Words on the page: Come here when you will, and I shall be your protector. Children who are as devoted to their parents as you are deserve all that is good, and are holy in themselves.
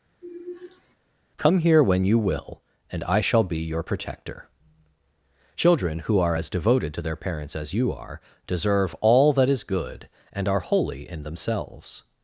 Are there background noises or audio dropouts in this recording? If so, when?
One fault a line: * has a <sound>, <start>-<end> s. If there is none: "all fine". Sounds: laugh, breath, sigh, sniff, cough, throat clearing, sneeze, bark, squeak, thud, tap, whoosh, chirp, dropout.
* has a sigh, 0.2-1.0 s